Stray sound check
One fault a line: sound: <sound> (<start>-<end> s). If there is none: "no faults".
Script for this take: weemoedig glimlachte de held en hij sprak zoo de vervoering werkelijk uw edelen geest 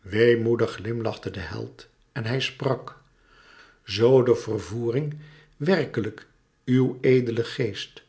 no faults